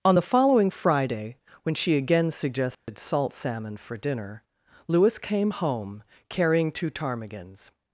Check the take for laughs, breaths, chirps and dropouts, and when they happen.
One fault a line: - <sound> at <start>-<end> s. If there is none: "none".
- dropout at 2.7-2.9 s